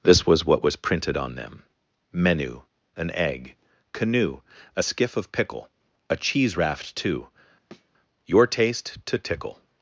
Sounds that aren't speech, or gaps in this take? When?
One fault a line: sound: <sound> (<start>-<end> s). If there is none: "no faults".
sound: thud (7.7-7.9 s)